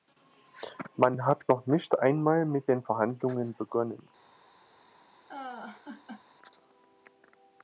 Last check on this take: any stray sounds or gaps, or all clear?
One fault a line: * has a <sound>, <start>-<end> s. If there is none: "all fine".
* has a laugh, 5.3-6.2 s